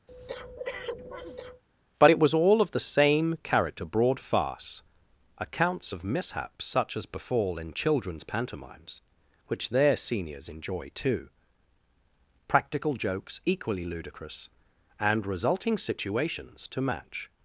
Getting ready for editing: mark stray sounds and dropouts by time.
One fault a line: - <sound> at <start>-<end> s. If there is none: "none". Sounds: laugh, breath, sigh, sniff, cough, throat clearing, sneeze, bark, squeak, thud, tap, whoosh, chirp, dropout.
- breath at 0.1-1.6 s